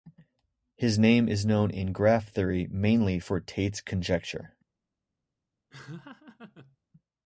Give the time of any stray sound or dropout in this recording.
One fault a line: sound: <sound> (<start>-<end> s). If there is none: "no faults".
sound: laugh (5.7-6.8 s)